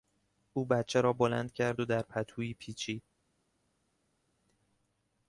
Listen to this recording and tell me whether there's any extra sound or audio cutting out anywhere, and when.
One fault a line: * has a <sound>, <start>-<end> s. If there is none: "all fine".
all fine